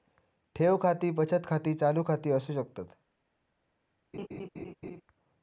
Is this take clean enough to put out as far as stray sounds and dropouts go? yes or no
no